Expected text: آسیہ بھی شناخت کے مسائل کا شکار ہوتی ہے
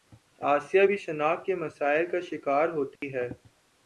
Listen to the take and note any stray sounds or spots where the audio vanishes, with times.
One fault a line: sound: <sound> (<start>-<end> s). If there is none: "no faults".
sound: dropout (3.0-3.0 s)